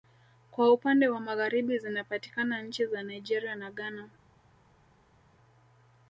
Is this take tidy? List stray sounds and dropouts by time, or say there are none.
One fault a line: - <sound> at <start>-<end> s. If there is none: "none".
none